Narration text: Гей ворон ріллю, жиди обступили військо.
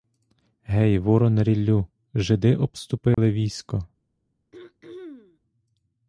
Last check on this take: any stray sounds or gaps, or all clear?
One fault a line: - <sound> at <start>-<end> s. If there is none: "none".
- dropout at 3.1-3.2 s
- throat clearing at 4.5-5.4 s